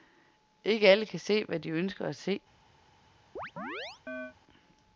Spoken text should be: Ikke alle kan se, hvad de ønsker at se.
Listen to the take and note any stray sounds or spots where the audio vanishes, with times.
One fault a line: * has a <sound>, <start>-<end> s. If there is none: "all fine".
* has a chirp, 3.4-4.3 s